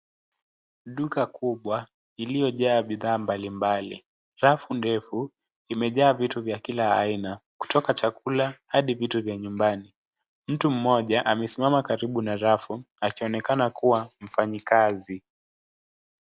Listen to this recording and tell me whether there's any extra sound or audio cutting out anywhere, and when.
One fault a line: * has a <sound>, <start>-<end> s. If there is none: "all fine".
all fine